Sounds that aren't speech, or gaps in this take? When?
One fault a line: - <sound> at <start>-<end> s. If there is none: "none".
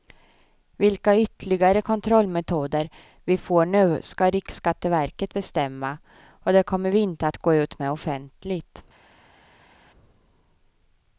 none